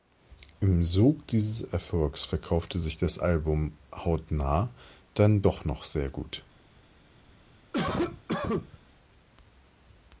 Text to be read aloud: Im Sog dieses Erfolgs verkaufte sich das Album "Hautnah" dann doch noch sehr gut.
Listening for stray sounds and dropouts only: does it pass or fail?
fail